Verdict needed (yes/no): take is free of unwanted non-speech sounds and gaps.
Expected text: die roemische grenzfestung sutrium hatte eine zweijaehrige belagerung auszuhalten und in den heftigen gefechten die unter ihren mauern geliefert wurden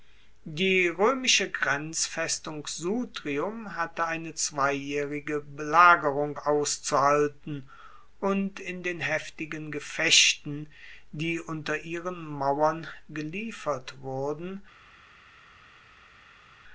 yes